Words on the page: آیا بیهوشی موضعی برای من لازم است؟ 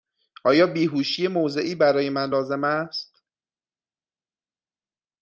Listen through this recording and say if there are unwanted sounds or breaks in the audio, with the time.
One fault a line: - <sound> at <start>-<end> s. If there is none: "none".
none